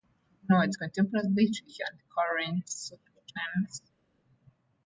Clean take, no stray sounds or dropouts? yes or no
yes